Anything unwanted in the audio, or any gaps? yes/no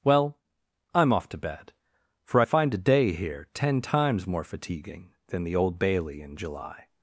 no